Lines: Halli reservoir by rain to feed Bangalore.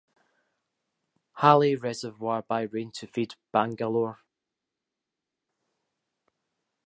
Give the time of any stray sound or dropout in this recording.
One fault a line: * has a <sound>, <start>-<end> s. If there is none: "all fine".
all fine